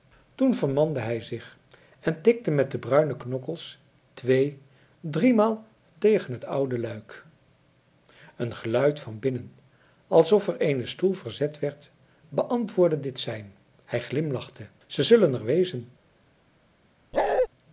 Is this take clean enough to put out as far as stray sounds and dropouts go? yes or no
no